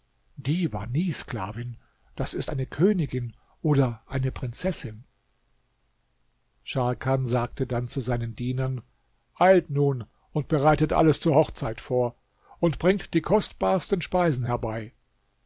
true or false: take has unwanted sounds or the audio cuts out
false